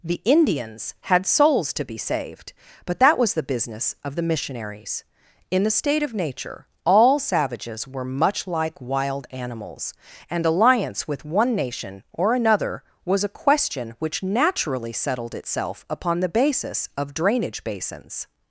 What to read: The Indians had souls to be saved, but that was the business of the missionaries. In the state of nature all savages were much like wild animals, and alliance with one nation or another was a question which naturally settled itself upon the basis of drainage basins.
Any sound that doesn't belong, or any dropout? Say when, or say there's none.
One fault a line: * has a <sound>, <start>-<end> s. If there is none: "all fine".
all fine